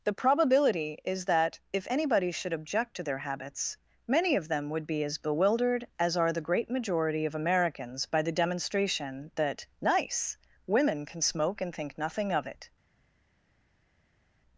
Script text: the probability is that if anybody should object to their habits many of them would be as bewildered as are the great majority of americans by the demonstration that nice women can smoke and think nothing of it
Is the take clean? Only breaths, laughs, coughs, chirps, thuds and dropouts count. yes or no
yes